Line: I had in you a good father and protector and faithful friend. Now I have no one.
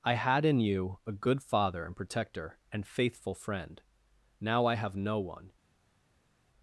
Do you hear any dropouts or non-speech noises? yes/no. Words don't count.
no